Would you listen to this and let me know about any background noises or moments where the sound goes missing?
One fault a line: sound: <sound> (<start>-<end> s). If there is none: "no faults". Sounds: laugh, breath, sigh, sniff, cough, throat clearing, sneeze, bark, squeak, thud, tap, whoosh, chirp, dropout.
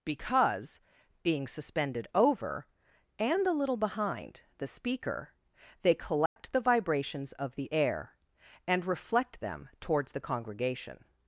sound: dropout (6.3-6.4 s)